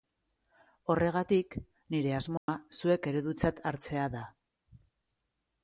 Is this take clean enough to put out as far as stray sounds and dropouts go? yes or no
no